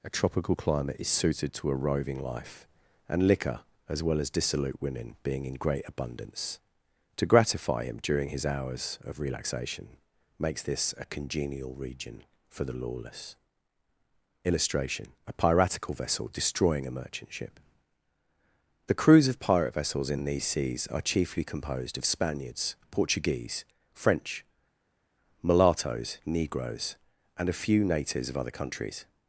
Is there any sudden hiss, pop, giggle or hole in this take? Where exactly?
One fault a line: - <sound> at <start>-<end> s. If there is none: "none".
none